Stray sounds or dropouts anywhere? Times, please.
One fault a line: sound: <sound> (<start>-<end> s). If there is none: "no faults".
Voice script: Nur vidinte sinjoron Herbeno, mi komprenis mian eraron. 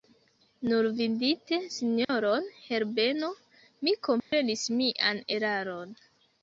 sound: dropout (2.0-2.1 s)
sound: dropout (4.2-4.3 s)